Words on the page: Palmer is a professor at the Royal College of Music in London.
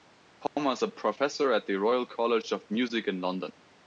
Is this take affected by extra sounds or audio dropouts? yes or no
yes